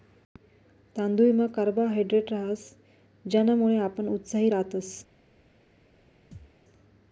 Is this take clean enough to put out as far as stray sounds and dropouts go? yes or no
no